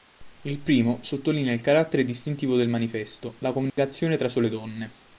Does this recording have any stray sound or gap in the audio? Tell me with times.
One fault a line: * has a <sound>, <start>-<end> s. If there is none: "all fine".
* has a dropout, 3.7-3.8 s